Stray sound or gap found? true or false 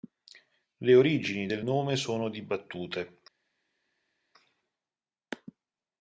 false